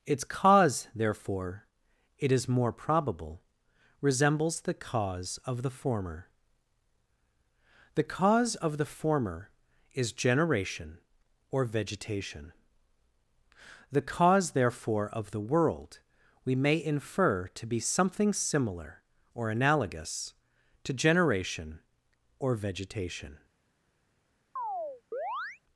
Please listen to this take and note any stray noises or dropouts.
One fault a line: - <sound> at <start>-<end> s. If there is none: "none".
- chirp at 24.6-25.6 s